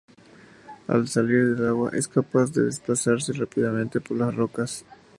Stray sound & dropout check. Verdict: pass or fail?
pass